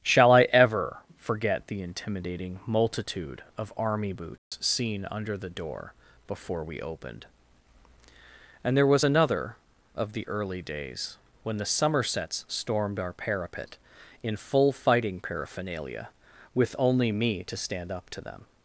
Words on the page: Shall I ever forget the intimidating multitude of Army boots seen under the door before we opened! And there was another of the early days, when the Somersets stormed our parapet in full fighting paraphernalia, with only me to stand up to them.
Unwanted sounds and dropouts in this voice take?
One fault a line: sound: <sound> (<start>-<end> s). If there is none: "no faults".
sound: dropout (4.4-4.5 s)